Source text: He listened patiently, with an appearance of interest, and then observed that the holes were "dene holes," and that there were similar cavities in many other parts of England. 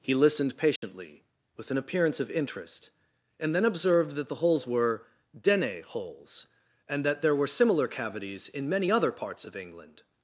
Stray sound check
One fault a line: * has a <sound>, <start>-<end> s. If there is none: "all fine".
* has a dropout, 0.8-0.8 s